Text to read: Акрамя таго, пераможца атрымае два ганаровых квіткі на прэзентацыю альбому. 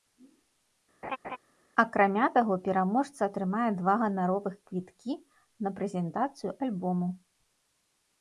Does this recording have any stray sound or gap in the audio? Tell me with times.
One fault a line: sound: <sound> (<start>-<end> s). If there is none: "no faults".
sound: laugh (1.0-1.4 s)